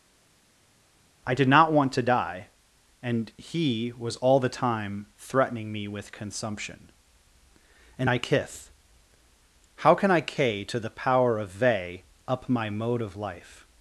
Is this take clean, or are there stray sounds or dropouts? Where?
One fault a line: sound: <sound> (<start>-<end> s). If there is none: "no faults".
no faults